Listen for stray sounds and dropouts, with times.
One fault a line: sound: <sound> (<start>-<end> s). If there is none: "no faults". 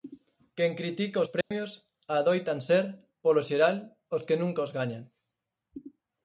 sound: dropout (1.4-1.5 s)